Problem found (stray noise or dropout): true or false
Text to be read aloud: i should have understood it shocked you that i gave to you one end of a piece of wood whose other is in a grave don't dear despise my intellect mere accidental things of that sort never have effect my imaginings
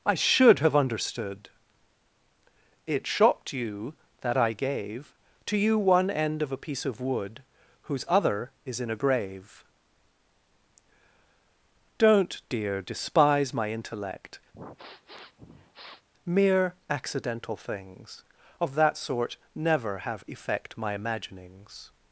true